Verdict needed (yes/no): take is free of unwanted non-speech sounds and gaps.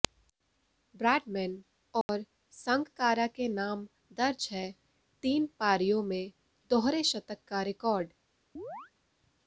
no